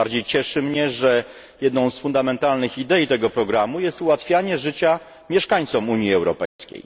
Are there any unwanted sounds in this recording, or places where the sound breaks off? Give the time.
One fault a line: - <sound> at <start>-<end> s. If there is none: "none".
- dropout at 6.5-6.6 s